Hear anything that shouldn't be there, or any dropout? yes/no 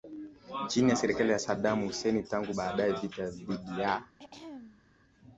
yes